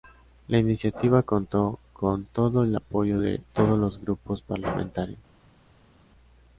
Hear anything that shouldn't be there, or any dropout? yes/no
no